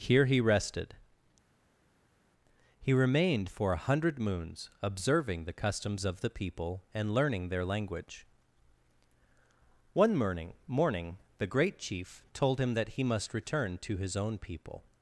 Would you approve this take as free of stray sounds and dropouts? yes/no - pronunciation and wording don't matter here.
yes